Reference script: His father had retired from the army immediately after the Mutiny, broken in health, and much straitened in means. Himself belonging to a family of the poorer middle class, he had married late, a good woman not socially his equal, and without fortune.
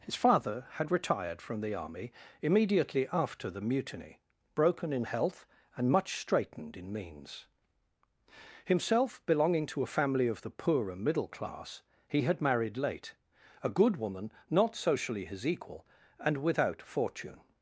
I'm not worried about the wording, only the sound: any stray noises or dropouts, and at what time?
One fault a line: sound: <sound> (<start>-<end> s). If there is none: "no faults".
no faults